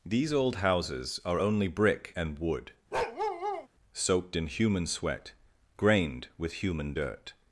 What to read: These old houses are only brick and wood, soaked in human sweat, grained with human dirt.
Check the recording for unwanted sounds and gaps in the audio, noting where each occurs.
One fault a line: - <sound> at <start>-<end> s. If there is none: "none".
- bark at 2.9-3.7 s